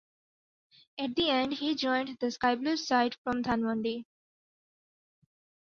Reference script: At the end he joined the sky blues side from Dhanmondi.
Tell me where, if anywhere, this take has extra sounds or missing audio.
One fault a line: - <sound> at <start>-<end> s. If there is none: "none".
none